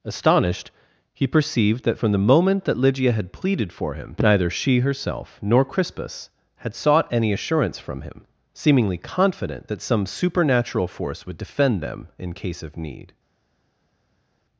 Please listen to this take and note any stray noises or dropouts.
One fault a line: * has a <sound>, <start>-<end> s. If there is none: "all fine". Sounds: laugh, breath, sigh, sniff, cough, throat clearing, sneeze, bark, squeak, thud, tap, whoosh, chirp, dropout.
all fine